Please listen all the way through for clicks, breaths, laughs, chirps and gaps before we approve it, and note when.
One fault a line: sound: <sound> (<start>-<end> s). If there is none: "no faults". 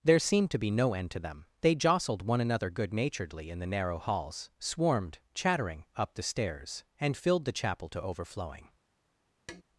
sound: tap (9.5-9.6 s)